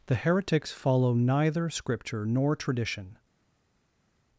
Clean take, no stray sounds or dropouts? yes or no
yes